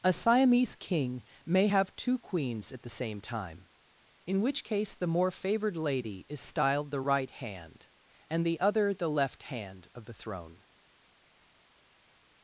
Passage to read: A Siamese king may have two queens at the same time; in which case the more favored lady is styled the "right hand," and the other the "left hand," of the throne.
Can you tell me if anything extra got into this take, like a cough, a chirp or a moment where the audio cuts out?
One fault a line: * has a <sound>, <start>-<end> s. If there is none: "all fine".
all fine